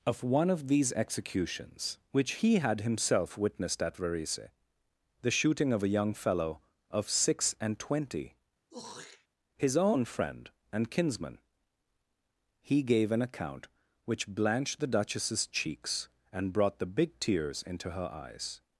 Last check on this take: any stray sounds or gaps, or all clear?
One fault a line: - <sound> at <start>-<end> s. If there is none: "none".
- throat clearing at 8.7-9.3 s